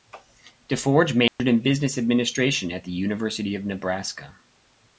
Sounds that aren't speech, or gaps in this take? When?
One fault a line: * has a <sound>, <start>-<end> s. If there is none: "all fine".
* has a dropout, 1.3-1.4 s